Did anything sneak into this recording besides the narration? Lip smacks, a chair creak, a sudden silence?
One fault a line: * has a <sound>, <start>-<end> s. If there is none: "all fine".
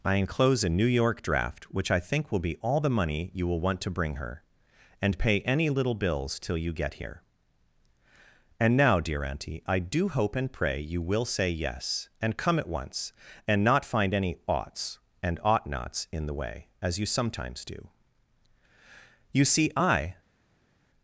all fine